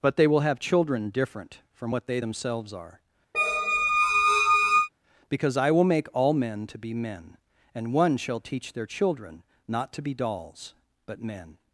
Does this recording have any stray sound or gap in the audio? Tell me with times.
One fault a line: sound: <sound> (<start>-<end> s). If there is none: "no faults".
sound: squeak (3.3-4.9 s)